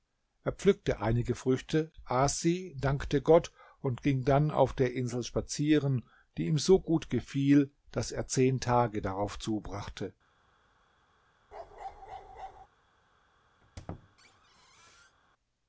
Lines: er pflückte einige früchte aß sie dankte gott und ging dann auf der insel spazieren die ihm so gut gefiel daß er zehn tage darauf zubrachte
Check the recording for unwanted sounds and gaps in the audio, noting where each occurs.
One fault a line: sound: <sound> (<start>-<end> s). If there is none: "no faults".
sound: bark (11.5-12.7 s)
sound: squeak (13.6-15.2 s)